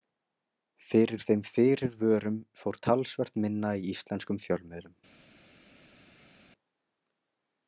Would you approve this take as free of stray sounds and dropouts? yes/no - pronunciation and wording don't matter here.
yes